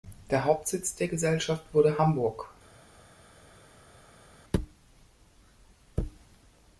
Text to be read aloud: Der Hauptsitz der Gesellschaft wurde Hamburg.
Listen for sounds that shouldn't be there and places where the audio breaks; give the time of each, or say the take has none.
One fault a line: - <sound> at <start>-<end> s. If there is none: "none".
none